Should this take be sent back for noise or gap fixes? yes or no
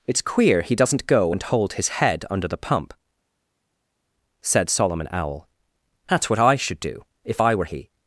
no